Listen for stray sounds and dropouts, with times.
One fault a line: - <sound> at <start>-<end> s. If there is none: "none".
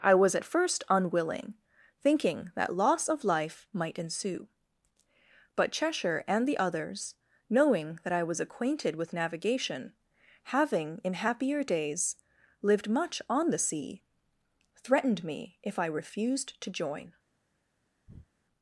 - breath at 18.1-18.3 s